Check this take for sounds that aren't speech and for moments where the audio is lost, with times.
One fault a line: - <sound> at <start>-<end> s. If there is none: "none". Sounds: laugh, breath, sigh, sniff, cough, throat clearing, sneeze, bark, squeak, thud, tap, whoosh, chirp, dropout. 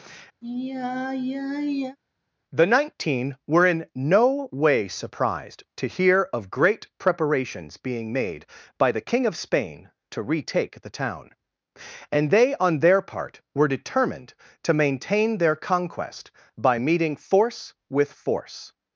- sigh at 0.4-2.0 s